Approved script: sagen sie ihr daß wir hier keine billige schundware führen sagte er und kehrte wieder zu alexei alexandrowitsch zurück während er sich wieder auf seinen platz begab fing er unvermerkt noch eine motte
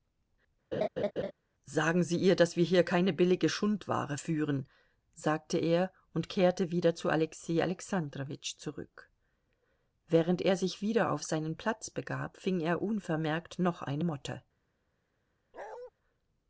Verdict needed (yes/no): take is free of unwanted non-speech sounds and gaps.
no